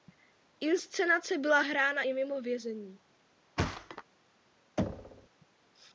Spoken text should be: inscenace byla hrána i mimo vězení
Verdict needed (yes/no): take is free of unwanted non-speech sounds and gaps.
no